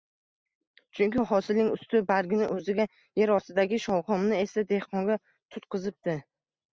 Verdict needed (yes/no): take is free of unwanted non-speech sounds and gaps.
yes